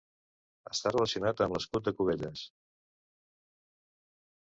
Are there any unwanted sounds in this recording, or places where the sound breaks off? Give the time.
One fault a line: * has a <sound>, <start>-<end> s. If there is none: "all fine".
all fine